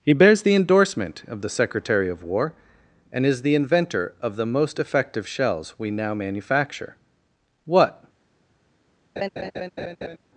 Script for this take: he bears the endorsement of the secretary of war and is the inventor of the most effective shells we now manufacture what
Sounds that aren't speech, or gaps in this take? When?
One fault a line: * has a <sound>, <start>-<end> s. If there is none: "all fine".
* has a laugh, 9.2-10.2 s